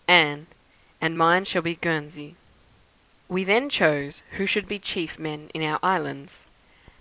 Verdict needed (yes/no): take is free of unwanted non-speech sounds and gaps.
yes